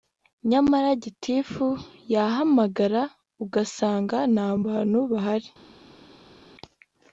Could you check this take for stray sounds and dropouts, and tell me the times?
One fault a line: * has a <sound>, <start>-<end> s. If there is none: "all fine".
all fine